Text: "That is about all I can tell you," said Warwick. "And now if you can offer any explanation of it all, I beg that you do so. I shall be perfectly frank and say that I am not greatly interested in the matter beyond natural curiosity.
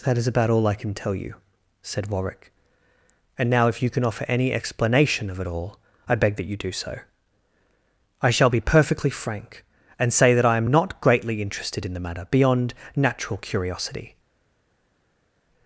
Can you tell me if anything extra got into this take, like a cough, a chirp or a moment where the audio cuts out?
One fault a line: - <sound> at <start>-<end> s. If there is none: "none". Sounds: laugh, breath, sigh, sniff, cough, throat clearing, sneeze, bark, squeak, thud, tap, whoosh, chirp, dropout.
none